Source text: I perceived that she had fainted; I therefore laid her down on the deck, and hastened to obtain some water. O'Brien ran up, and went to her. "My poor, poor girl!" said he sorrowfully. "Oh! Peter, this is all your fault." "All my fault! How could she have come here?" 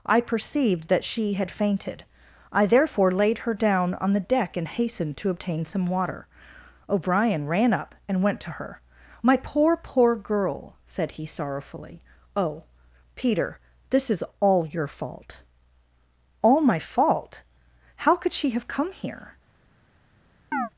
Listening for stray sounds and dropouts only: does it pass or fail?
fail